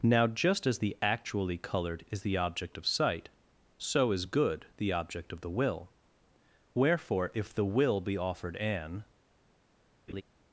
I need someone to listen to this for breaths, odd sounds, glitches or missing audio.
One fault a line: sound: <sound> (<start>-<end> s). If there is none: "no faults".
sound: laugh (10.1-10.2 s)